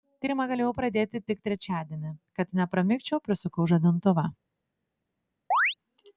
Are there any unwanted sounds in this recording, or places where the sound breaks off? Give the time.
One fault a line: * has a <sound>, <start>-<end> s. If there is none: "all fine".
* has a chirp, 5.5-5.8 s